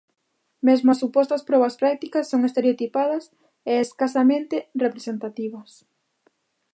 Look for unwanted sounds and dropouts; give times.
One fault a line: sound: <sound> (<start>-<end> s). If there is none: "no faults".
no faults